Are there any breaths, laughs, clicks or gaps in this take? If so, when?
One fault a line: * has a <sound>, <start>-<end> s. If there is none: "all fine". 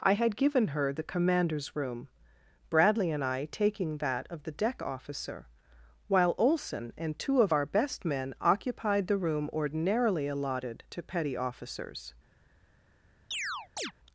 * has a chirp, 13.3-13.9 s